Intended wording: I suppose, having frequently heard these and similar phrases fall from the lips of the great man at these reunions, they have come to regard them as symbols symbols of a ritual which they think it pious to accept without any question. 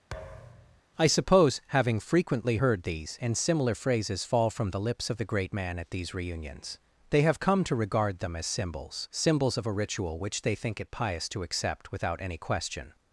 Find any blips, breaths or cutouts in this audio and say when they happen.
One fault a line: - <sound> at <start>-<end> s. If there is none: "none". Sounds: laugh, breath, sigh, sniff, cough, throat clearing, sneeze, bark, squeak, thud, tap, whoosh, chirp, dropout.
- thud at 0.1-0.8 s